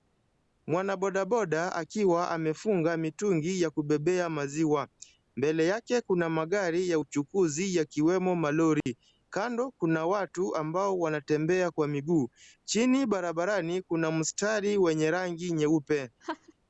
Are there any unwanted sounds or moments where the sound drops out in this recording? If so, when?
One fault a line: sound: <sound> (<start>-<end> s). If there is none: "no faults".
sound: dropout (8.8-8.9 s)
sound: laugh (16.2-16.5 s)